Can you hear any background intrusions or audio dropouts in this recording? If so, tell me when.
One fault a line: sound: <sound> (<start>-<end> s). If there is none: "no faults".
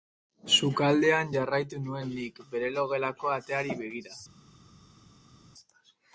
no faults